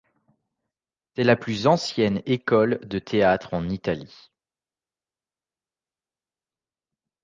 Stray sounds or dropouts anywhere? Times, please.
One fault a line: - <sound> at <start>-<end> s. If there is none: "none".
none